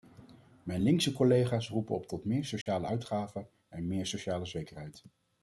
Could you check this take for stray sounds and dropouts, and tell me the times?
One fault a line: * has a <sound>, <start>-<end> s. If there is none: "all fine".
* has a dropout, 2.6-2.7 s